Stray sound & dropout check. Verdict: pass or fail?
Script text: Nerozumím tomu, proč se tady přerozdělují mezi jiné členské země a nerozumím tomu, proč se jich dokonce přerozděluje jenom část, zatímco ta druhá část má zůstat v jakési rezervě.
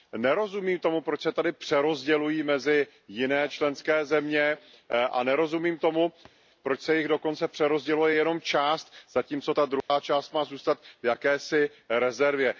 fail